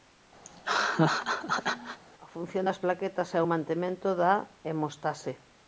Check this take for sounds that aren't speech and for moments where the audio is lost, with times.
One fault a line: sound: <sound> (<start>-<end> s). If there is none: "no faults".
sound: laugh (0.5-2.0 s)